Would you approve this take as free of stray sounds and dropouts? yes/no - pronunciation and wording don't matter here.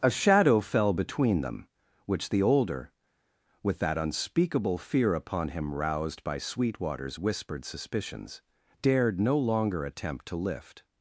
yes